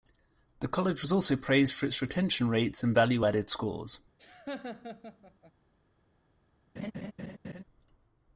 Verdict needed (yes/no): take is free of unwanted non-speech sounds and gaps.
no